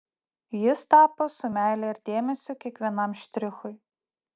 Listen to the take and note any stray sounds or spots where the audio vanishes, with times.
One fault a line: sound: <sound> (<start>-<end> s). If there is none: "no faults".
no faults